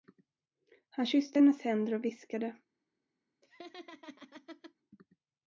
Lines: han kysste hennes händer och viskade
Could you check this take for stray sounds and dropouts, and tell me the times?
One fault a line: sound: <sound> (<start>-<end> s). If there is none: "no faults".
sound: laugh (3.4-4.7 s)